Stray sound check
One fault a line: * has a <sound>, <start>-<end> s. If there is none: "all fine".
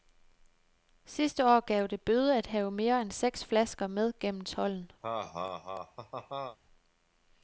* has a laugh, 5.0-6.6 s